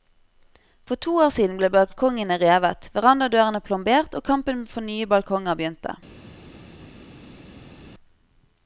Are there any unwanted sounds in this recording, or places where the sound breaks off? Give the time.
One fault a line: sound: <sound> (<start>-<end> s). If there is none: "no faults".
no faults